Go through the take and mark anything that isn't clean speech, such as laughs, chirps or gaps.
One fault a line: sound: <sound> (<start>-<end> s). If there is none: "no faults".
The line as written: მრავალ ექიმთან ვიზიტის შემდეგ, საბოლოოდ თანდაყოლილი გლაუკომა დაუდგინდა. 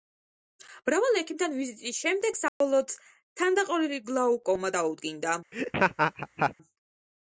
sound: dropout (2.5-2.6 s)
sound: laugh (5.5-6.5 s)